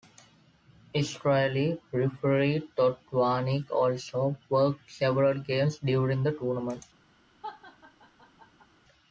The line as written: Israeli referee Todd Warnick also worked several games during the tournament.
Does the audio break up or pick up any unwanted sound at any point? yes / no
yes